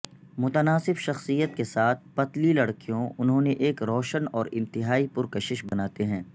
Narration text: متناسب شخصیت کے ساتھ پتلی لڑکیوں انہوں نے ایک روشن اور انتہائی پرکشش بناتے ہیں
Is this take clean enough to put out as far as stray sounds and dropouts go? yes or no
no